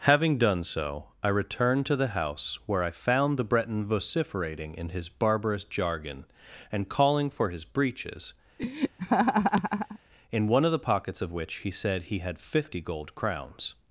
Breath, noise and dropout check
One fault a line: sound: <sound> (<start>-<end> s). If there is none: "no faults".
sound: laugh (8.6-10.0 s)